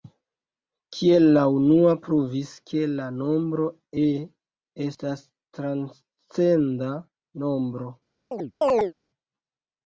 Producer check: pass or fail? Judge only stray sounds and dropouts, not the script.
fail